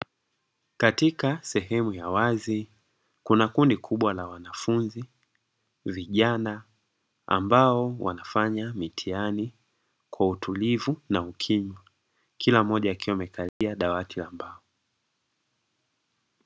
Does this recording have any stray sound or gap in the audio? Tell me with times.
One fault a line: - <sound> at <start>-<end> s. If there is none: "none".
- dropout at 13.5-13.6 s